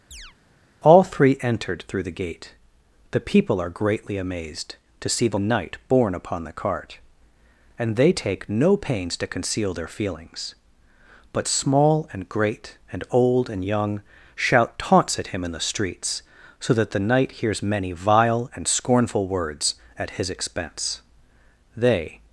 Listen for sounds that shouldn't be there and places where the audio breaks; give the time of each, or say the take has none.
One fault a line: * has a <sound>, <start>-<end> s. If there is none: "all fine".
* has a chirp, 0.1-0.3 s